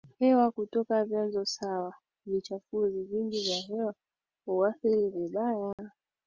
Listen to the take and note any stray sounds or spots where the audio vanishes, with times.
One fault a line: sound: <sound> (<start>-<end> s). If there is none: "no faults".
sound: dropout (5.7-5.8 s)